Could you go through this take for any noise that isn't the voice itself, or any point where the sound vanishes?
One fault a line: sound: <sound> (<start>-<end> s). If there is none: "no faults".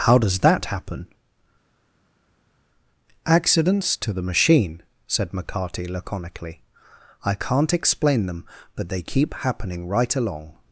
no faults